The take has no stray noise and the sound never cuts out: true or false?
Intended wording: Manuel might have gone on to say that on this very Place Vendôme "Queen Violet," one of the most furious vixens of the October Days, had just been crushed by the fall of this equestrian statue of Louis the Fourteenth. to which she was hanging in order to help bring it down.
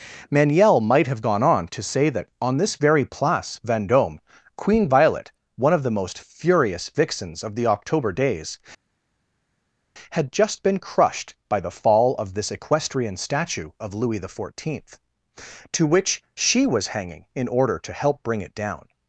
true